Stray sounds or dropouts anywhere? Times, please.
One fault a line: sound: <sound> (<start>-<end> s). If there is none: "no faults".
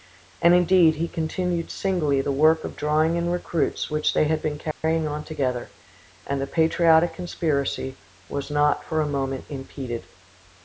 sound: dropout (4.7-4.8 s)